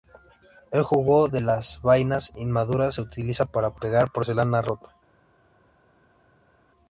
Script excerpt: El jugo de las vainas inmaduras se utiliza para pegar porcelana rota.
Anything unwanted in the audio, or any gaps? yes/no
no